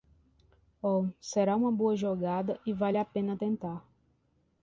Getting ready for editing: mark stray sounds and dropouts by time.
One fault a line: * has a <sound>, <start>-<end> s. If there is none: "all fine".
all fine